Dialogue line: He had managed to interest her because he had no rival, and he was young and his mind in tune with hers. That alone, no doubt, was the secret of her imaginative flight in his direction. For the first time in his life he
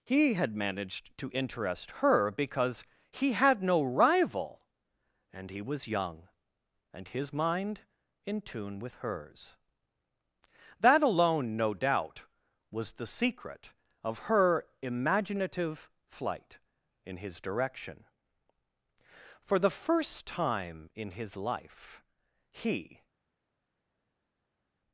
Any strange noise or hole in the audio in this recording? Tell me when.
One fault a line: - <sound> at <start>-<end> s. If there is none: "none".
none